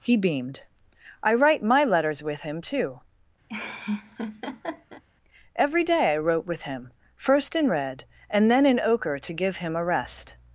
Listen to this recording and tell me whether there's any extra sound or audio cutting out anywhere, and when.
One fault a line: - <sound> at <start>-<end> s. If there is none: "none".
- laugh at 3.5-5.0 s